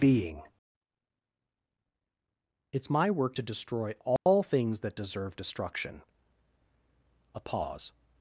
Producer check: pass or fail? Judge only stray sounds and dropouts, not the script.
fail